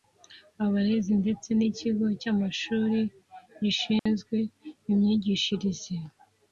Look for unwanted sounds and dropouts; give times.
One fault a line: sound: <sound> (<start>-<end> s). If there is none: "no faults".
sound: dropout (4.0-4.1 s)